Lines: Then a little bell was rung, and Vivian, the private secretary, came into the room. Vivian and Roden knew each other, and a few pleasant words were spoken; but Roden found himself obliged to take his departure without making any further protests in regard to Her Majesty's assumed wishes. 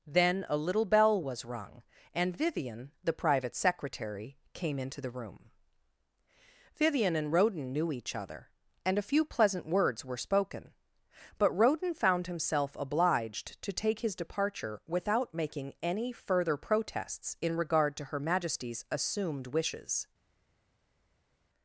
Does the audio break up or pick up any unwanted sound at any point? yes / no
no